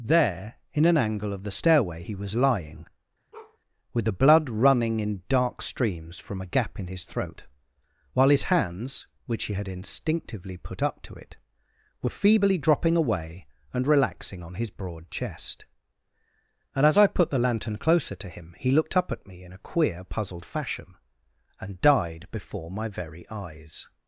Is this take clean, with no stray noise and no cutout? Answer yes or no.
no